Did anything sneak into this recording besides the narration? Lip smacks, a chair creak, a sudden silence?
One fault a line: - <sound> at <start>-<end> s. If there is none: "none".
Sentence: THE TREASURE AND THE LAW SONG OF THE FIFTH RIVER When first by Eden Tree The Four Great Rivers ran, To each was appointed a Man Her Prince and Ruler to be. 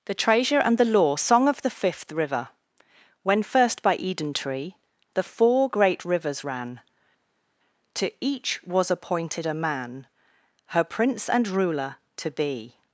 none